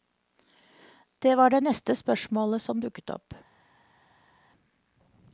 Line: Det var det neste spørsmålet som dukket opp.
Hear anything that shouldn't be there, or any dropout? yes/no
no